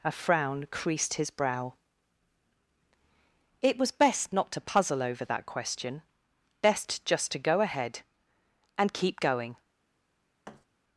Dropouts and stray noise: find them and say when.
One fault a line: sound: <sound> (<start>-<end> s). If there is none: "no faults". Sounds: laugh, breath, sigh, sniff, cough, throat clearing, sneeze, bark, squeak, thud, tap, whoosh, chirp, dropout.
sound: thud (10.5-10.7 s)